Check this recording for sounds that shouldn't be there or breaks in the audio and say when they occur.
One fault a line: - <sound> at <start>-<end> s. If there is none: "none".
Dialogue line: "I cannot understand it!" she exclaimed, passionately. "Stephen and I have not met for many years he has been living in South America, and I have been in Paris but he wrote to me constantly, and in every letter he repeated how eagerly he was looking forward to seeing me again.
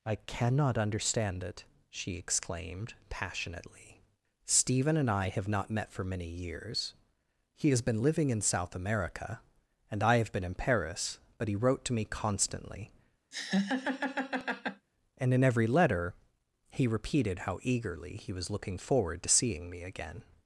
- laugh at 13.3-14.9 s